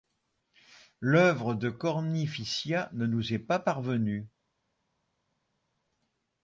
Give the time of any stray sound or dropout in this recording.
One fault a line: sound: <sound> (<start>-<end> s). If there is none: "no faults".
no faults